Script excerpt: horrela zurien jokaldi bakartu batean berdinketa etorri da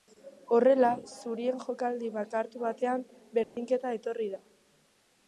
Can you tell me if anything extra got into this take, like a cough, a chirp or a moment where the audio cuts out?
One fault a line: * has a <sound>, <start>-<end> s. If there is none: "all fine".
* has a dropout, 3.4-3.6 s